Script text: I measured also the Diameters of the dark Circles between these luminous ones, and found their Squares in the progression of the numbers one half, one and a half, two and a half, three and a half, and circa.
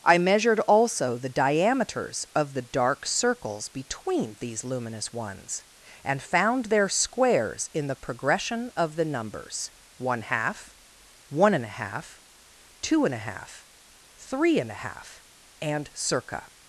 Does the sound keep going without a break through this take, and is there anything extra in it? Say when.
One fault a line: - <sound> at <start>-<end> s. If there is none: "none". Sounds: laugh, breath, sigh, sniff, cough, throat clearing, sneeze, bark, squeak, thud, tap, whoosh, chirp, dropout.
none